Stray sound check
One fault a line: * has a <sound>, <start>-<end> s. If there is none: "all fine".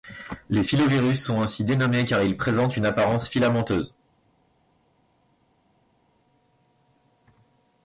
all fine